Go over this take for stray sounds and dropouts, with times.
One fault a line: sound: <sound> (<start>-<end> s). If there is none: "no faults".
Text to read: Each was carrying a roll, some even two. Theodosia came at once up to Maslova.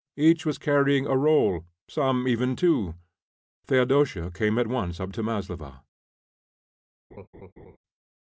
sound: laugh (7.1-7.8 s)